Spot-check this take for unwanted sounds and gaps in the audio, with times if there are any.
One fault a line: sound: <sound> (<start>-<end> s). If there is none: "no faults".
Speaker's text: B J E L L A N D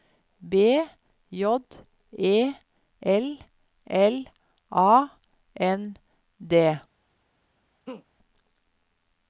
sound: laugh (7.9-8.1 s)